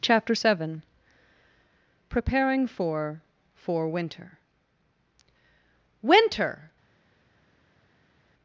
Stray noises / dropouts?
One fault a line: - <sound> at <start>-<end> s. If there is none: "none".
none